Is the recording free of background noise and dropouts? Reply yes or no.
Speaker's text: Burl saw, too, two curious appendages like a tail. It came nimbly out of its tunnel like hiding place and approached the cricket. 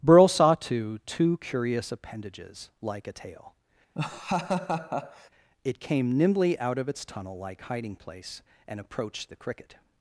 no